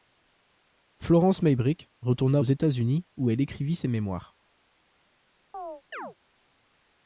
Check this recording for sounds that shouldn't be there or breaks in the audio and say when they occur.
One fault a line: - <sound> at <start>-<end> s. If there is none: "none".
- chirp at 5.5-6.1 s